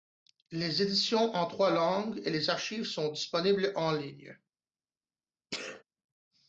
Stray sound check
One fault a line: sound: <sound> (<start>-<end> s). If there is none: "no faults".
sound: sneeze (5.5-5.8 s)